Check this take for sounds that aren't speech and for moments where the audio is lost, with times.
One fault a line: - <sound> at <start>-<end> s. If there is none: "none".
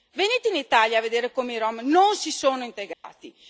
- dropout at 2.9-3.0 s